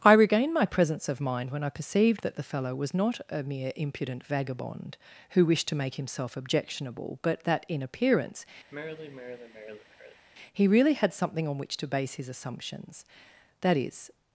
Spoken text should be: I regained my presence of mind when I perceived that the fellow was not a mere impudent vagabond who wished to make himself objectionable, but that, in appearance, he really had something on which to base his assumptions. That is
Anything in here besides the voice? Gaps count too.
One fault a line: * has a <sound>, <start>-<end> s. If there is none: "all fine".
* has a sigh, 8.7-10.3 s